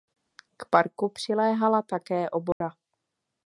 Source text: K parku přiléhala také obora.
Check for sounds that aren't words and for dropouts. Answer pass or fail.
fail